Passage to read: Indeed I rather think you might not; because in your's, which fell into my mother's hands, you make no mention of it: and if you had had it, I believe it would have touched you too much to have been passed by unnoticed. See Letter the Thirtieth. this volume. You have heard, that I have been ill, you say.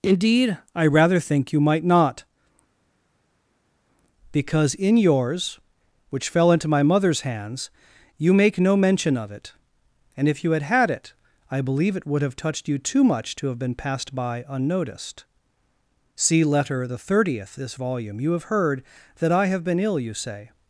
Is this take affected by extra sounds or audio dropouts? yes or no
no